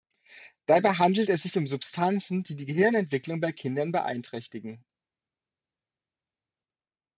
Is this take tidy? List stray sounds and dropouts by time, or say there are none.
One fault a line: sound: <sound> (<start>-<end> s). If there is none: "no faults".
no faults